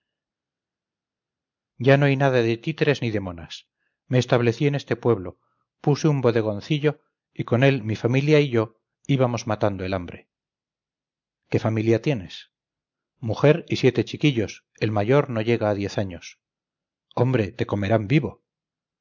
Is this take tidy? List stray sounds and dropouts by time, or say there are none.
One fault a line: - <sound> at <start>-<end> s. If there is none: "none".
none